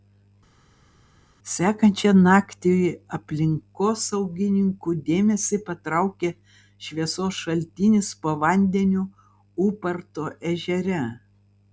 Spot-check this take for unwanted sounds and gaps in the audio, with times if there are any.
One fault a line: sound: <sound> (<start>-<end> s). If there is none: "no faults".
no faults